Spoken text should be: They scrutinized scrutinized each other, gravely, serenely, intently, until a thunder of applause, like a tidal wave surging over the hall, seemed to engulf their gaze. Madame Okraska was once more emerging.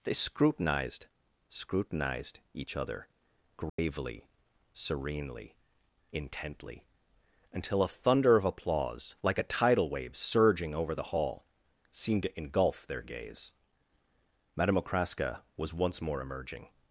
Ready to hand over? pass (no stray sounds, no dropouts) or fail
fail